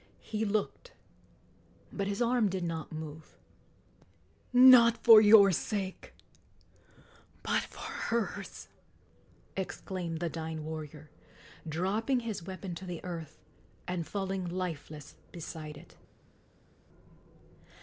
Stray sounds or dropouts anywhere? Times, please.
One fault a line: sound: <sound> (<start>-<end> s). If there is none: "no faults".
no faults